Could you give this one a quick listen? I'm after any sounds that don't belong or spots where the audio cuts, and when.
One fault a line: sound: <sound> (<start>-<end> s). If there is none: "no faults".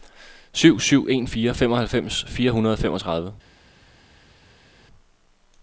no faults